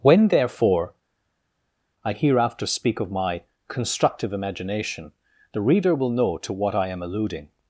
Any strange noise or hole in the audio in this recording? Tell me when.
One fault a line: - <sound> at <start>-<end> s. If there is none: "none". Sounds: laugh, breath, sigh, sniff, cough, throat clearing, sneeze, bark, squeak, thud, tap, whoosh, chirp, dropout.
none